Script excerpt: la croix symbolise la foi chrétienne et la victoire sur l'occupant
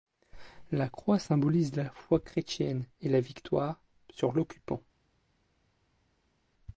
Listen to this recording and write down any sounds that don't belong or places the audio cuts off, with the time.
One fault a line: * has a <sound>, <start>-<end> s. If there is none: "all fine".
all fine